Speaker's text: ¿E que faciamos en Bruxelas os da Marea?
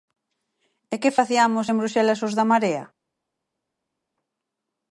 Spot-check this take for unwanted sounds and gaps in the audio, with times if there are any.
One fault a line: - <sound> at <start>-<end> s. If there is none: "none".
none